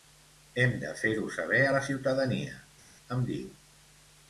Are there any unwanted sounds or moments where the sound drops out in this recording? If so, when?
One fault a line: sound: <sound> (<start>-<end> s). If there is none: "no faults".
no faults